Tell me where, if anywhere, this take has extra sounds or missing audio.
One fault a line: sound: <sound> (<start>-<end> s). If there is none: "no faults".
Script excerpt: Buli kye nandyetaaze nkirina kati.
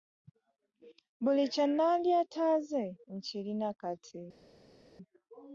no faults